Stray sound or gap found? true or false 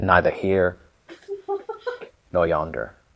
true